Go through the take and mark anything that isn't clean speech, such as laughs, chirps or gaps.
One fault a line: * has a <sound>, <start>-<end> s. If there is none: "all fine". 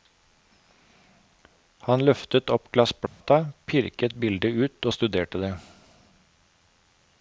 * has a dropout, 3.1-3.2 s